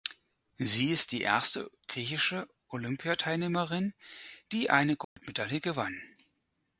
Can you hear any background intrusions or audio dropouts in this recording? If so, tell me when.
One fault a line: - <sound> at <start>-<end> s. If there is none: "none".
- dropout at 5.0-5.2 s